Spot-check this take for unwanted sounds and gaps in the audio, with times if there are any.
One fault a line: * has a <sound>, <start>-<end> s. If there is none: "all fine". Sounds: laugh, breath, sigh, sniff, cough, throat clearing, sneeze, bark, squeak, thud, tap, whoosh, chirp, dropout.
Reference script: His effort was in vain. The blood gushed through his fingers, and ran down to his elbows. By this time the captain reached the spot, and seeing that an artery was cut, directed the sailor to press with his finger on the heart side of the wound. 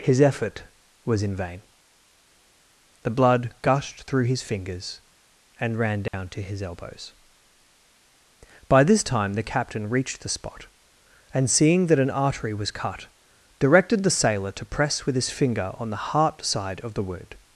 * has a dropout, 6.1-6.1 s